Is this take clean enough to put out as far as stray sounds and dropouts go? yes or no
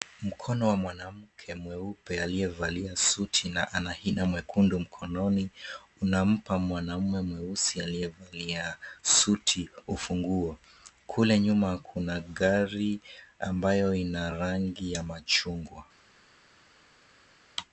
yes